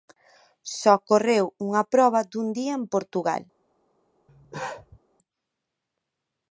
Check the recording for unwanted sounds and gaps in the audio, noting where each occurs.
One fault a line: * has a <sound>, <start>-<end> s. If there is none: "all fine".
* has a cough, 4.3-5.0 s